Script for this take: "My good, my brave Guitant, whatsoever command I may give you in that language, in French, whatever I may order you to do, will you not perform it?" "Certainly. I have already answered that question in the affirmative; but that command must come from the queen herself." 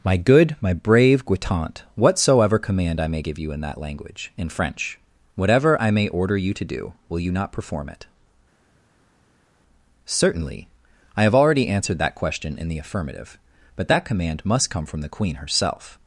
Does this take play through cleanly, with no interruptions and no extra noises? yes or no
yes